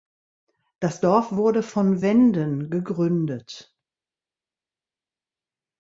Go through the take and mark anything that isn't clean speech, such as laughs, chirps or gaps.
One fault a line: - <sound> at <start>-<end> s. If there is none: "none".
none